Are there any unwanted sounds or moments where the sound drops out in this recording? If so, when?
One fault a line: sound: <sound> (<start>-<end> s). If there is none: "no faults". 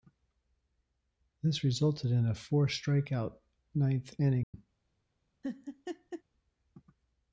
sound: dropout (4.4-4.5 s)
sound: laugh (5.4-6.2 s)